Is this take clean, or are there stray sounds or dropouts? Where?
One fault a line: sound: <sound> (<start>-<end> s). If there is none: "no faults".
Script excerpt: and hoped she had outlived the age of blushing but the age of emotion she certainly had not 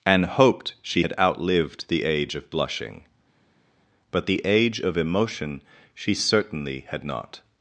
no faults